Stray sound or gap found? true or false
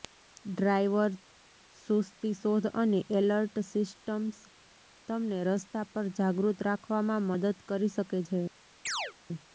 true